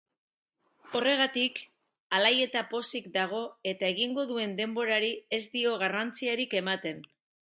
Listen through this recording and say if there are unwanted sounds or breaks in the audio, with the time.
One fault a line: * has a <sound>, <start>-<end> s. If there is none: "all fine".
all fine